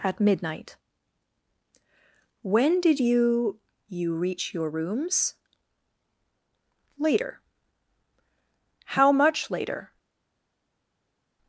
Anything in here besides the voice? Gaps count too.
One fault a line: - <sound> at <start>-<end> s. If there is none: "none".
none